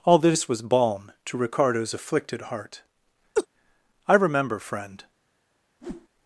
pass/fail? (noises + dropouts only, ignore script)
fail